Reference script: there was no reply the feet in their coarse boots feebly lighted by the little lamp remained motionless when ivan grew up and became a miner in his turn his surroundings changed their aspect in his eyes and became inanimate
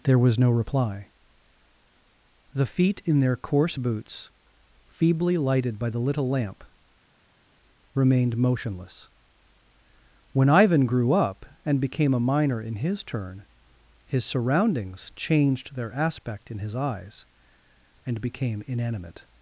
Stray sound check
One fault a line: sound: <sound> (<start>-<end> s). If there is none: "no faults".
no faults